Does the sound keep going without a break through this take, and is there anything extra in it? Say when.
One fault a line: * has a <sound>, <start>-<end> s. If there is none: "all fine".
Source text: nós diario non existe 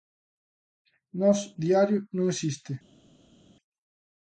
all fine